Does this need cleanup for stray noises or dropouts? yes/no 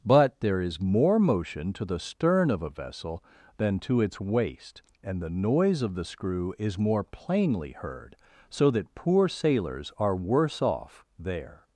no